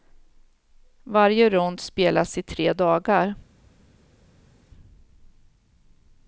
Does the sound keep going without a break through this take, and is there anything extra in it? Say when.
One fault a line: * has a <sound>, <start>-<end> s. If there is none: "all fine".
all fine